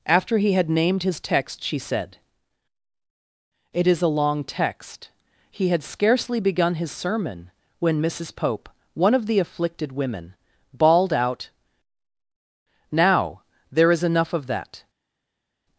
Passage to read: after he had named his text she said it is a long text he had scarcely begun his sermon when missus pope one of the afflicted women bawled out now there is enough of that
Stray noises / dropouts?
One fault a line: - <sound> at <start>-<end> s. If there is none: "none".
none